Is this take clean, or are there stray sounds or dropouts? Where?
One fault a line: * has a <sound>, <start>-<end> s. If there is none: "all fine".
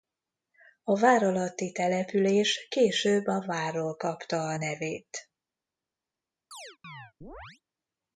* has a chirp, 6.5-7.6 s